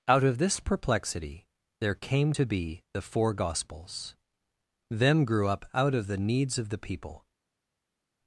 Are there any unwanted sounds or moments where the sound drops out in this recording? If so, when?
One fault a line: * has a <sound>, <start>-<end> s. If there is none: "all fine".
all fine